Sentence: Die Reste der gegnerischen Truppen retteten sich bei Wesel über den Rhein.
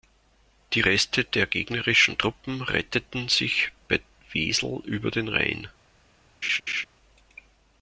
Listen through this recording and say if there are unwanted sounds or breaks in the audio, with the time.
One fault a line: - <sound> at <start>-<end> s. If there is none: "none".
- laugh at 6.4-6.8 s